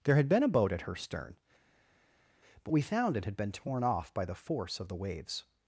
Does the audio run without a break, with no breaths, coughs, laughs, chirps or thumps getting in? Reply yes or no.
yes